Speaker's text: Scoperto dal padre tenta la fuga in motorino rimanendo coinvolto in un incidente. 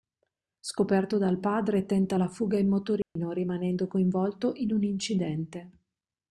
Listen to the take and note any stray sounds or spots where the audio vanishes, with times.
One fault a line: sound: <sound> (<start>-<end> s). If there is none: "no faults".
sound: dropout (3.0-3.2 s)